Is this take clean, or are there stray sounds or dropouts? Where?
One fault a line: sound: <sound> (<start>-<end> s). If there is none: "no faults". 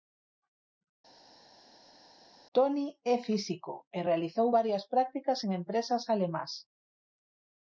no faults